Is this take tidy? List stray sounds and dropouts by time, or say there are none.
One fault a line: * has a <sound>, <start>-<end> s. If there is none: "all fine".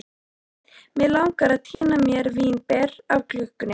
* has a dropout, 1.7-1.8 s